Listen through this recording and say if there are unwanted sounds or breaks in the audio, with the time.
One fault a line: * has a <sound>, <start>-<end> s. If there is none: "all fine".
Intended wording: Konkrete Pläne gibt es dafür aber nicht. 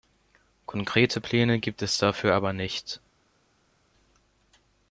all fine